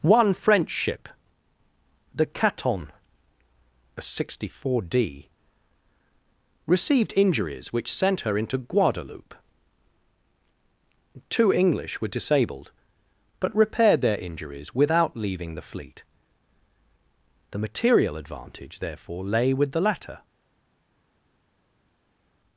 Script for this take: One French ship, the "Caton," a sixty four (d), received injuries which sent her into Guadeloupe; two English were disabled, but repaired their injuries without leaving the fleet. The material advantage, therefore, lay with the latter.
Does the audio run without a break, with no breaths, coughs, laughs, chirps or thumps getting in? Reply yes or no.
yes